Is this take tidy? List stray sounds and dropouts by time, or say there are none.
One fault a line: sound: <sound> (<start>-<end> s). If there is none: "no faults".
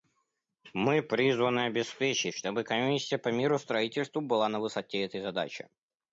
no faults